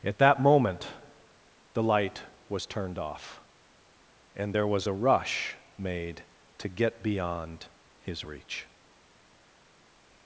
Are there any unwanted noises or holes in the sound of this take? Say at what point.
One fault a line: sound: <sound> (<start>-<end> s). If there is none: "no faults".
no faults